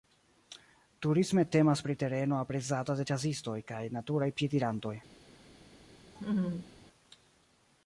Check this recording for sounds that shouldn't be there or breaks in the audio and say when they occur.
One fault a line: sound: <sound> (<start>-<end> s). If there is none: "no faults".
sound: laugh (6.2-6.7 s)